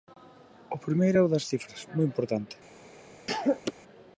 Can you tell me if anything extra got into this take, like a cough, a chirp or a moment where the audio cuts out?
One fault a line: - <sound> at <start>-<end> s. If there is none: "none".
- cough at 3.3-3.7 s